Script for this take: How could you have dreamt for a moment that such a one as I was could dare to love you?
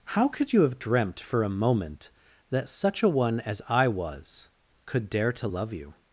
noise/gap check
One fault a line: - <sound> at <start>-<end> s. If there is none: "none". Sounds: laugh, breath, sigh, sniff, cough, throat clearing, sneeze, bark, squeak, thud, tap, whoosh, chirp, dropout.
none